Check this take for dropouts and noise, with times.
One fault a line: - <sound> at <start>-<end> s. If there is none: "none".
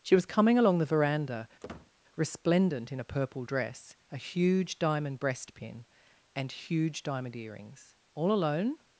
- squeak at 1.6-1.9 s